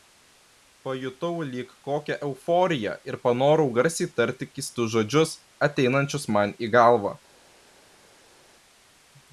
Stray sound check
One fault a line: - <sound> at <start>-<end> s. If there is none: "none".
none